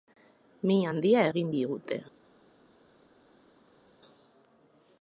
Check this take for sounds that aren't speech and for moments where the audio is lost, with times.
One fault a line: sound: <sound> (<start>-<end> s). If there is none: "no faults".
no faults